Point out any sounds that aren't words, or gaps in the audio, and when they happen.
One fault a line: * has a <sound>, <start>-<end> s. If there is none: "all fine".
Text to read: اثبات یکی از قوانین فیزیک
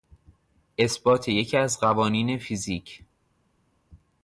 all fine